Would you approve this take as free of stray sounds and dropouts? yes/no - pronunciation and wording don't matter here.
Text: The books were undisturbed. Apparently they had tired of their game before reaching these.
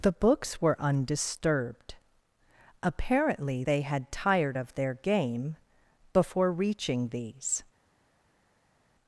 yes